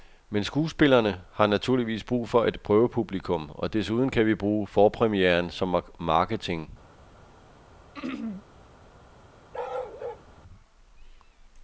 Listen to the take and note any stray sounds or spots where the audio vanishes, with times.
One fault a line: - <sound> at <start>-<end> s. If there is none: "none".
- throat clearing at 7.9-8.4 s
- bark at 9.5-10.3 s